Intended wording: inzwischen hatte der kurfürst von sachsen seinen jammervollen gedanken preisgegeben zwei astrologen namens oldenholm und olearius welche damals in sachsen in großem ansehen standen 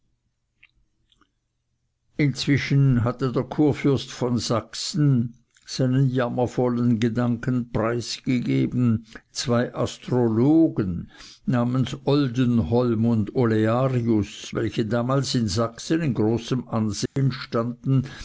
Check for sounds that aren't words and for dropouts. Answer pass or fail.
fail